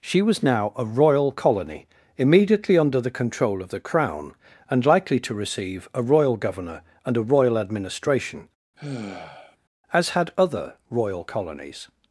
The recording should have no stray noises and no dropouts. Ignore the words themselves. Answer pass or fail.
fail